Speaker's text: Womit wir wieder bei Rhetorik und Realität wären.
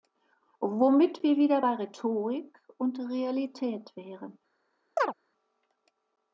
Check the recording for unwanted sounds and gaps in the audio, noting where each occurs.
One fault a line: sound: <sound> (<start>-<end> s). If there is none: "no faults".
sound: chirp (5.0-5.1 s)